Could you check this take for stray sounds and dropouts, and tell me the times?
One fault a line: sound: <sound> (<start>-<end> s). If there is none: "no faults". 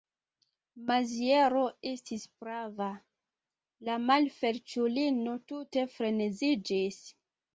no faults